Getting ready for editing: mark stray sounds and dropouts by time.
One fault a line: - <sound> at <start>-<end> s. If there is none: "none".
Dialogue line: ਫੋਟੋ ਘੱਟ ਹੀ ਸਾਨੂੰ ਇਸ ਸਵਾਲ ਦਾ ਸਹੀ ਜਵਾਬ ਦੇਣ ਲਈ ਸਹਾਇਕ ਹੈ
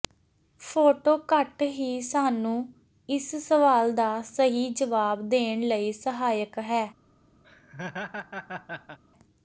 - laugh at 7.4-9.0 s